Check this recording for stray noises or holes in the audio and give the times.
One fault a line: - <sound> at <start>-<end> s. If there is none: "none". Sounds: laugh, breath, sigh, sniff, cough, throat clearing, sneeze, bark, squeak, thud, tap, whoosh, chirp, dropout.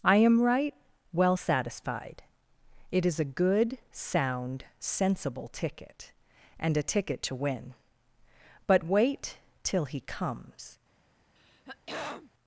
- throat clearing at 11.4-12.3 s